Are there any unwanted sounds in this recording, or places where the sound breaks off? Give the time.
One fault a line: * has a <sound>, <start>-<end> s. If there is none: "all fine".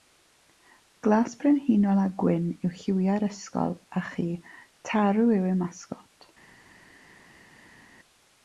all fine